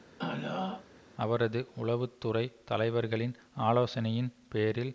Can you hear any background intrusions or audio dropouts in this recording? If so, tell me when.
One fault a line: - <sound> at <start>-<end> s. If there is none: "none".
- throat clearing at 0.2-0.9 s